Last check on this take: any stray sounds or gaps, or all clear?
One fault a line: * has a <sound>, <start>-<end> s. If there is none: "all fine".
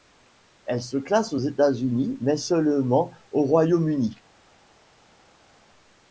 all fine